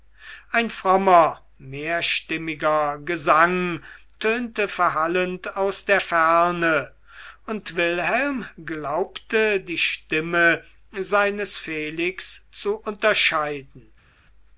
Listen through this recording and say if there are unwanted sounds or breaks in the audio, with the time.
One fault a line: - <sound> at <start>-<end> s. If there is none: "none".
none